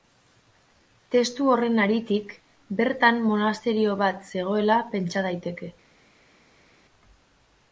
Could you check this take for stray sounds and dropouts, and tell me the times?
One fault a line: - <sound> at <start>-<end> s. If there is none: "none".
none